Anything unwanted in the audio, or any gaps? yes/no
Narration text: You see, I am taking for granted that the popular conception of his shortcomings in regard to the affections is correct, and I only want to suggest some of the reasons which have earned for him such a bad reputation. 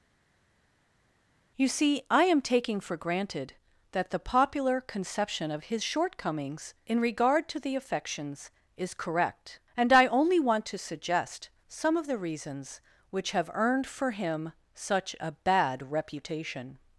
no